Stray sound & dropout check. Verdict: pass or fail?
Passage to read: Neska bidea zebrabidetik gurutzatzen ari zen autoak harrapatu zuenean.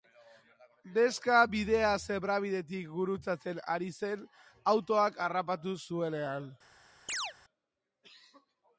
fail